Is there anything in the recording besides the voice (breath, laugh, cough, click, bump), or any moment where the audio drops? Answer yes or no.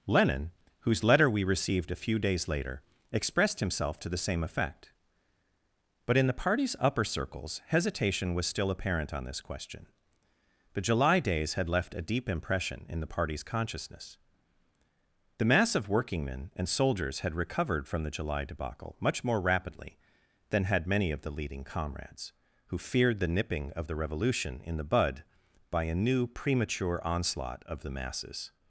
no